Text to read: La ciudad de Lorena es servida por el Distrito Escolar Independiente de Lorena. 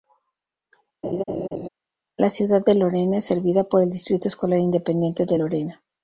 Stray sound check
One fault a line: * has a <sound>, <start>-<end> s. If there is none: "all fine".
* has a laugh, 1.0-1.7 s